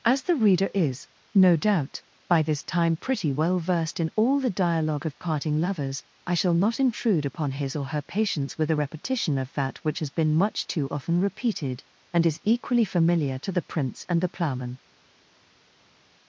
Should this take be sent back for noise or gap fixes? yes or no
no